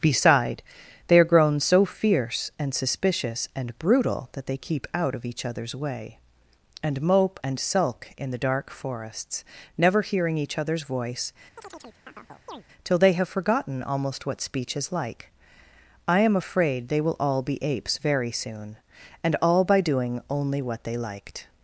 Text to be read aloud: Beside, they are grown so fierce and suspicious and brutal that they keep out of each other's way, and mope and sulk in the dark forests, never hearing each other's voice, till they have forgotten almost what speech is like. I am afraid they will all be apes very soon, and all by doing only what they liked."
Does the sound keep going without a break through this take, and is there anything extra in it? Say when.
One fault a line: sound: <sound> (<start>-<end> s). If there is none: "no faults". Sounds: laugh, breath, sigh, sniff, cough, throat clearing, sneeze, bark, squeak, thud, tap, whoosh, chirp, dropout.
sound: chirp (11.6-12.6 s)